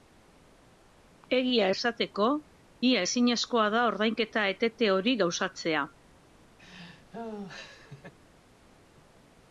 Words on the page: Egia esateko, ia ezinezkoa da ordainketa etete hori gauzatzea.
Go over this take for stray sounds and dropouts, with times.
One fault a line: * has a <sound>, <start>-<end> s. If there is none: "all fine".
* has a laugh, 6.6-8.1 s